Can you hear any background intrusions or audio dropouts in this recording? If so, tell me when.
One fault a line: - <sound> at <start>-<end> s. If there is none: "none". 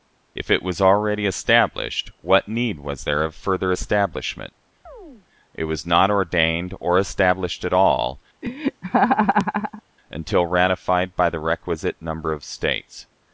- chirp at 4.9-5.3 s
- laugh at 8.4-9.8 s